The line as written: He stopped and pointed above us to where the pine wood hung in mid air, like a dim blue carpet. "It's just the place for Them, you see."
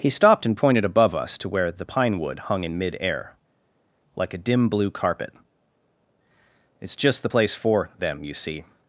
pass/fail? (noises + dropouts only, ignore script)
pass